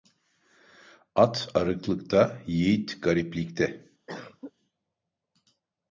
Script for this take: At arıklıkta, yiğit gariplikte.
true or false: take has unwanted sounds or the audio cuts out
true